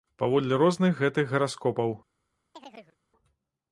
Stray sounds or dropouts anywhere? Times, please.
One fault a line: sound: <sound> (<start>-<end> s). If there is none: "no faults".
sound: chirp (2.5-3.0 s)